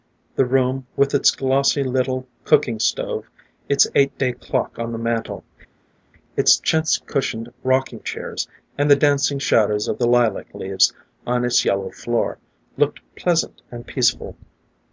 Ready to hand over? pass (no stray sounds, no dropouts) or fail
pass